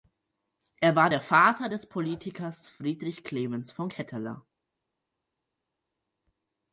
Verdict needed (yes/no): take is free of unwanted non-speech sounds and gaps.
yes